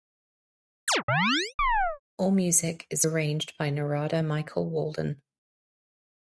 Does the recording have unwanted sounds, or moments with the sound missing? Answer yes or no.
yes